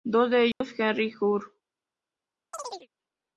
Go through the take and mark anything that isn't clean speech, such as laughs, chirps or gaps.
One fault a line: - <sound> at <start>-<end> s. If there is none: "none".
- dropout at 0.5-0.6 s
- chirp at 2.5-2.9 s